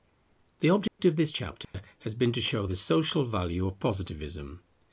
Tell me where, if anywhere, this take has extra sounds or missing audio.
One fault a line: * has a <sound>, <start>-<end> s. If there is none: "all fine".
* has a dropout, 0.9-1.0 s
* has a dropout, 1.6-1.7 s